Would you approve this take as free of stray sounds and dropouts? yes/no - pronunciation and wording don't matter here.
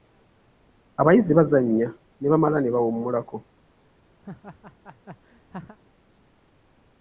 no